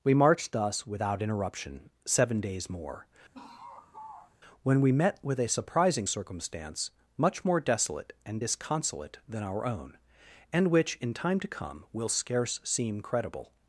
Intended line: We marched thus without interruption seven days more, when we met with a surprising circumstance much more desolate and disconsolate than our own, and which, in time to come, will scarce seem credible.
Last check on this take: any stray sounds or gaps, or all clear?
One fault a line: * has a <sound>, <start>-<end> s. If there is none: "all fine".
* has a laugh, 3.3-4.4 s